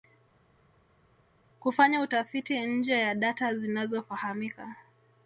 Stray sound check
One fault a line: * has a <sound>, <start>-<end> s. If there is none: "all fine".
all fine